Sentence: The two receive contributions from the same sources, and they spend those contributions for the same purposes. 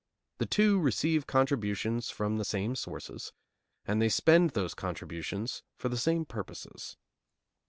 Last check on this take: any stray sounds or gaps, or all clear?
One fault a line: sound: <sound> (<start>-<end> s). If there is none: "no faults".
no faults